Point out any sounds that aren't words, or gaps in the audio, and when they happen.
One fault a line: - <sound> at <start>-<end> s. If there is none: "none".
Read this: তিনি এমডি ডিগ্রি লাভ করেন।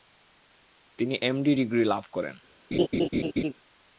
- laugh at 2.7-3.5 s